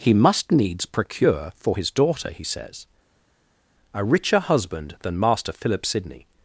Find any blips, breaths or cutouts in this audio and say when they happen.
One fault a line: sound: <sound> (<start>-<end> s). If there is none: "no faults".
no faults